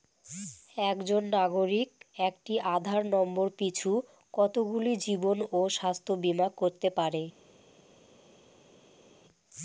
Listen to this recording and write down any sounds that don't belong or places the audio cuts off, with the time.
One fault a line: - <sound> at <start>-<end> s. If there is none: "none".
none